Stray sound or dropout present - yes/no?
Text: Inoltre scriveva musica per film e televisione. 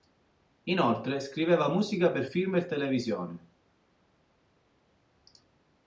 no